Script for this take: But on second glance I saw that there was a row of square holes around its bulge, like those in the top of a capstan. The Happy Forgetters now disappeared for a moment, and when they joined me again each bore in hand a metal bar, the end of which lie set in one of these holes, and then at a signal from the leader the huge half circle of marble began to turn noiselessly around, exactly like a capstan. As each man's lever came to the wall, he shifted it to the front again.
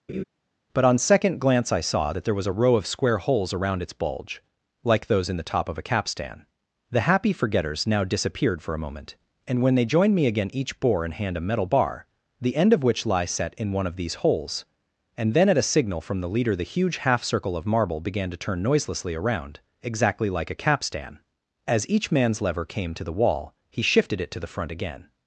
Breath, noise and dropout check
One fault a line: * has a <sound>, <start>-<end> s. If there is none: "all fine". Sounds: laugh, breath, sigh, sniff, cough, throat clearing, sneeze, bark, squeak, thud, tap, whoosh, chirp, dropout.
* has a laugh, 0.1-0.2 s